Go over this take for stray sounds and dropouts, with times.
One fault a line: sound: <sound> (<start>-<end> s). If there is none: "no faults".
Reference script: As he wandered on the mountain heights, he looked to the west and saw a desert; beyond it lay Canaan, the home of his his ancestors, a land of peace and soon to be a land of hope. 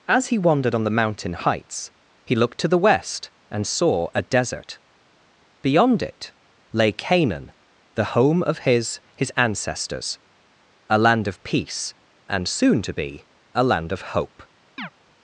sound: chirp (14.8-14.9 s)